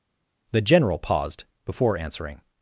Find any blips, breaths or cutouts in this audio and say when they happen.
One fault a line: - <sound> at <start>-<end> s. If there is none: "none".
none